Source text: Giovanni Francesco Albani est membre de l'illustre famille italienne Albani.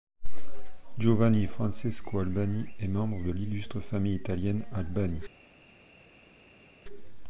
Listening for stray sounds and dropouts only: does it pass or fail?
pass